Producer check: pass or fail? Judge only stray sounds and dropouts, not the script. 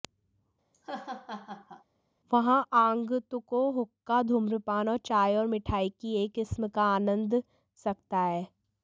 fail